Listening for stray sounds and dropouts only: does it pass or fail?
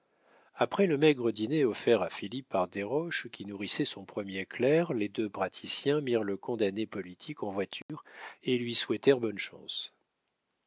fail